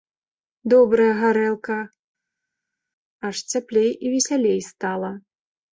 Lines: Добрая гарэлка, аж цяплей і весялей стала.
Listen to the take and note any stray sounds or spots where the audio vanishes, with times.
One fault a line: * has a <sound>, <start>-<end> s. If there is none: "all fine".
all fine